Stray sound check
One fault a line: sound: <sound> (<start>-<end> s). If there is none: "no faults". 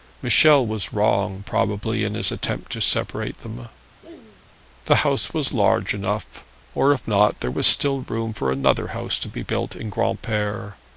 sound: throat clearing (4.0-4.5 s)